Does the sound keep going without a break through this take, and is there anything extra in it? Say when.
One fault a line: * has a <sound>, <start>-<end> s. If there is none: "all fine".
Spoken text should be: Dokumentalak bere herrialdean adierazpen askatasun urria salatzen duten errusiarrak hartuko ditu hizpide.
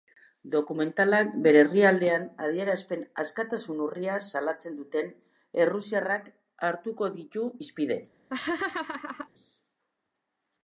* has a laugh, 8.3-9.3 s